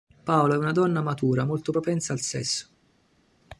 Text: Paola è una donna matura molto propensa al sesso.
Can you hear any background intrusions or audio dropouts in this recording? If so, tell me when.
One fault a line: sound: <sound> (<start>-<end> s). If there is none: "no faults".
no faults